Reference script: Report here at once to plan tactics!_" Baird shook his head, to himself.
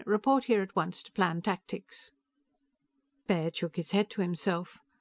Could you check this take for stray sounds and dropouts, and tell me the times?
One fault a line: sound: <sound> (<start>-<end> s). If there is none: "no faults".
no faults